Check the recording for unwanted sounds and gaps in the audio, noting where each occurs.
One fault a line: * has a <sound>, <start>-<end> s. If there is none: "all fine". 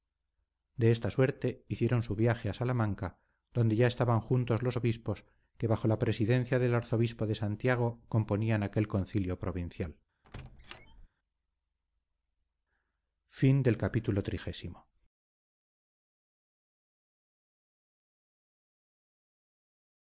* has a squeak, 10.2-11.1 s